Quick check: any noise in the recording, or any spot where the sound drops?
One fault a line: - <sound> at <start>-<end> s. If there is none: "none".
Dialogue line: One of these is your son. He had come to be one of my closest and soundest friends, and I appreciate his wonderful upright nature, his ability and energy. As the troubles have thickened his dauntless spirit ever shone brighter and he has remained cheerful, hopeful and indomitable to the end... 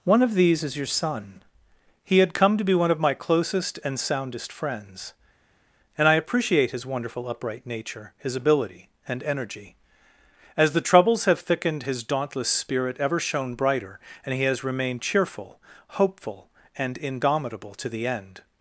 none